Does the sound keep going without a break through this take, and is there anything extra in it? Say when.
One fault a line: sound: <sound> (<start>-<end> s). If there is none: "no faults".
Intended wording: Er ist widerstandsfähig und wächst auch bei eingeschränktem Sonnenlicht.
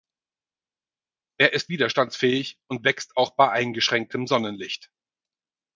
no faults